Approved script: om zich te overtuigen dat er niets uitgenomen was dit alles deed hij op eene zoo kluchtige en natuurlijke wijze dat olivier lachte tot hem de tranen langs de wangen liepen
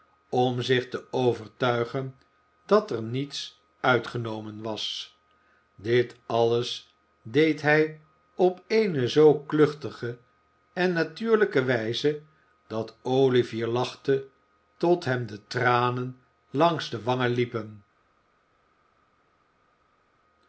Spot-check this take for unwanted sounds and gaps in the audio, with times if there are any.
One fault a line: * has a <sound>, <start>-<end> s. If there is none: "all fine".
all fine